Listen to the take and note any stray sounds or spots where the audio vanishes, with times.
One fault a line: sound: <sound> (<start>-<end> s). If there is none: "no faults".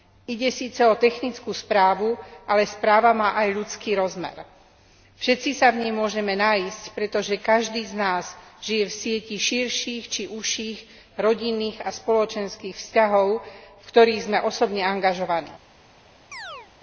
sound: chirp (16.3-16.7 s)